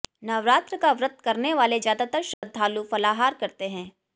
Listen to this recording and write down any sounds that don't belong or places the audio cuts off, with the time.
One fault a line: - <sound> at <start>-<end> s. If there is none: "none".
- dropout at 2.3-2.4 s